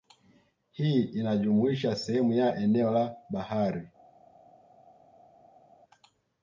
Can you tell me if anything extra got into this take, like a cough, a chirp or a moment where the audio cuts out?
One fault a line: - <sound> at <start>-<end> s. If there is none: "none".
none